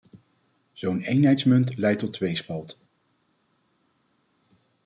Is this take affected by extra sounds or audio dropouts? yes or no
no